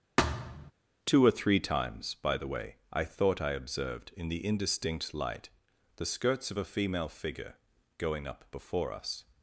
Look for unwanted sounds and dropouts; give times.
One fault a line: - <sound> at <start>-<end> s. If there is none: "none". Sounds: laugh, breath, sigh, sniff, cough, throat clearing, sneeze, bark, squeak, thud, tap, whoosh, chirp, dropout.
- thud at 0.2-0.7 s